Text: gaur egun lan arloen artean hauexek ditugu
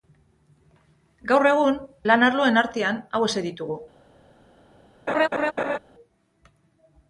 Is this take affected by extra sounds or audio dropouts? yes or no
yes